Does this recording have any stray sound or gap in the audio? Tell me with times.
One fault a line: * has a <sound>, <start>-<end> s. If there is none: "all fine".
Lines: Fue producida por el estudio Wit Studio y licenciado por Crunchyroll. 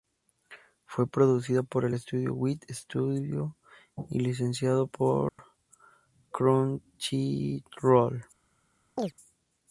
* has a dropout, 5.3-5.4 s
* has a chirp, 9.0-9.1 s